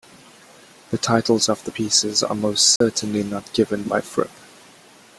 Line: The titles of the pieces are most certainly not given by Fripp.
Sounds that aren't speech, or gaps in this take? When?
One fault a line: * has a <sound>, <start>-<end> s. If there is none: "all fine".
* has a dropout, 2.8-2.8 s